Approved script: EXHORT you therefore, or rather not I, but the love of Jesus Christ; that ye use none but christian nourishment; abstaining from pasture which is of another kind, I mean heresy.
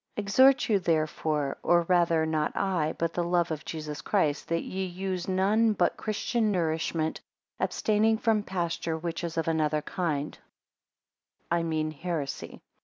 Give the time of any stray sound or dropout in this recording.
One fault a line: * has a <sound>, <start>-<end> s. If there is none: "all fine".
all fine